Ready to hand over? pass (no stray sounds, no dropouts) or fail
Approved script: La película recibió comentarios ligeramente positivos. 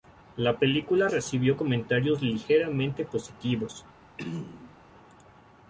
fail